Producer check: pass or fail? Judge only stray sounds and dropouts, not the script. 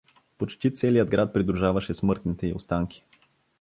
pass